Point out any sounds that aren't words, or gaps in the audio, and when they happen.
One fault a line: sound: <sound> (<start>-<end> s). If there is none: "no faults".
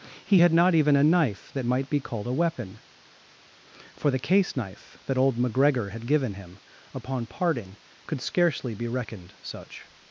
no faults